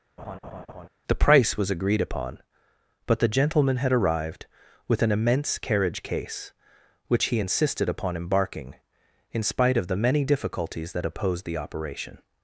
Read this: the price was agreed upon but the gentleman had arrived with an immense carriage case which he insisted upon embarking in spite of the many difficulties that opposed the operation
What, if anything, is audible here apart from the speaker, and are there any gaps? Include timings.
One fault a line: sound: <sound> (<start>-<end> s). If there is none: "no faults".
sound: laugh (0.2-0.9 s)